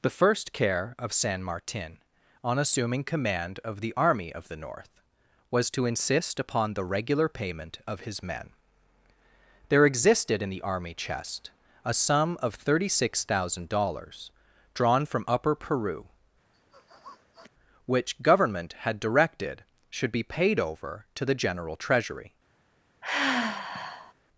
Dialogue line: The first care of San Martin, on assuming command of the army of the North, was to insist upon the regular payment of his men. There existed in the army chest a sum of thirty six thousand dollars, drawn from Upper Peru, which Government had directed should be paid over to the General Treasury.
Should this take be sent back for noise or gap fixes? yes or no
yes